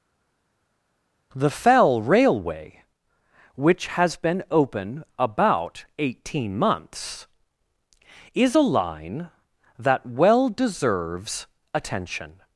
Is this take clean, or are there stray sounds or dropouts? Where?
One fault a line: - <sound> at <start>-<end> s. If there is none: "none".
none